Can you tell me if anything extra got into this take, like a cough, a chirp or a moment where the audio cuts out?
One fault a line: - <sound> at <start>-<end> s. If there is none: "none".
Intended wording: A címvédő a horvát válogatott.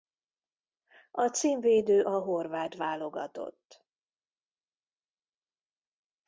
none